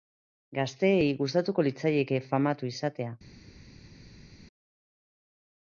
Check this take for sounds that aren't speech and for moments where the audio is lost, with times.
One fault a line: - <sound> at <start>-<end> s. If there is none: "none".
none